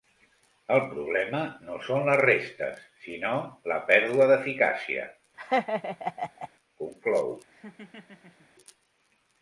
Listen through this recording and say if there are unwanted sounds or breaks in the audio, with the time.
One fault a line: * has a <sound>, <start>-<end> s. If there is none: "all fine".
* has a laugh, 5.4-6.5 s
* has a laugh, 7.5-8.5 s